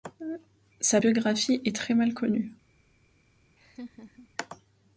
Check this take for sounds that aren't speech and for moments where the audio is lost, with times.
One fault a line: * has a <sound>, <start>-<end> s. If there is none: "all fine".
* has a laugh, 3.6-4.3 s